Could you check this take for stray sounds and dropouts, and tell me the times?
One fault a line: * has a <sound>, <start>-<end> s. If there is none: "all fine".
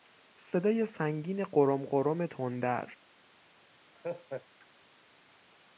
* has a laugh, 4.0-4.5 s